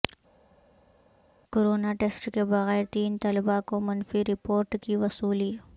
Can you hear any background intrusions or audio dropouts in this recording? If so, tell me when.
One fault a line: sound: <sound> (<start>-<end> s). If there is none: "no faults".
no faults